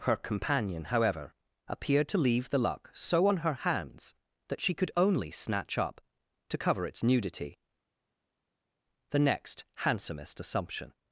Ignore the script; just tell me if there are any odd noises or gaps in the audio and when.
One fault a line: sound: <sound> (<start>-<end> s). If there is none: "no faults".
no faults